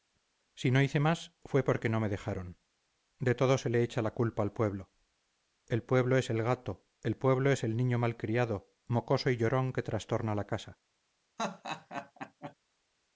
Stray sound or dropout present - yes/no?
yes